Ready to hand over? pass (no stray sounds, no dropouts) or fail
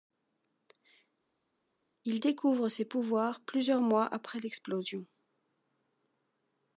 pass